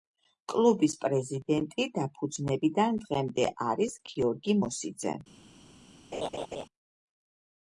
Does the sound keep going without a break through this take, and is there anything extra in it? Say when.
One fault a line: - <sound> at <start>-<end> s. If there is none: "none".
- laugh at 6.1-6.7 s